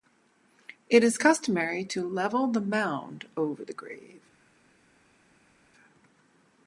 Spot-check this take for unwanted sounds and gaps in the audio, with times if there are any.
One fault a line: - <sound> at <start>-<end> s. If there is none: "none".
none